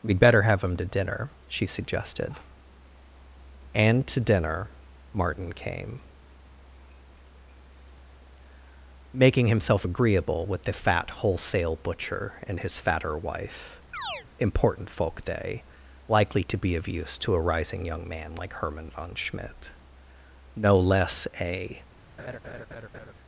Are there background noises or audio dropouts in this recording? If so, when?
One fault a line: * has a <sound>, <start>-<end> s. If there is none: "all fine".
* has a chirp, 13.9-14.3 s
* has a laugh, 22.2-23.1 s